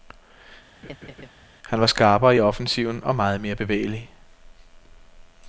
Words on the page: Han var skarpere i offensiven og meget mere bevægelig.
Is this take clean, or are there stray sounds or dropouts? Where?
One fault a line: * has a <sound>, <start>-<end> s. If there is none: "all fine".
* has a laugh, 0.8-1.3 s